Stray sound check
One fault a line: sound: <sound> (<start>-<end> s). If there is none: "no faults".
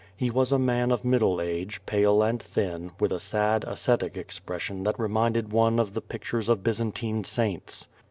no faults